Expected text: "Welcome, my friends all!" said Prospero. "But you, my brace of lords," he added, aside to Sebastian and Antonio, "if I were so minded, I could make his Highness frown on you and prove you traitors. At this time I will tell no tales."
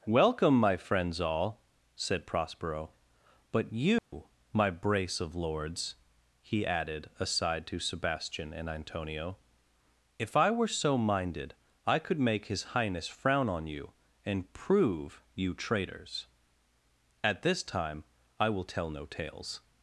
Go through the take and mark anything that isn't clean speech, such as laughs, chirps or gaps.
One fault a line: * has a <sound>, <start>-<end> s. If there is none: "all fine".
* has a dropout, 4.0-4.1 s